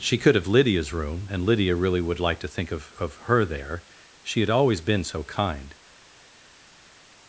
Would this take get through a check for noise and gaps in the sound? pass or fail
pass